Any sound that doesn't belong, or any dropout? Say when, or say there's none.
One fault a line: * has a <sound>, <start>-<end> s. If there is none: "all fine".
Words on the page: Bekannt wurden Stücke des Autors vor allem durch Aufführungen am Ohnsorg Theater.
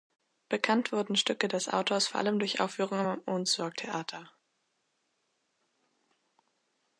all fine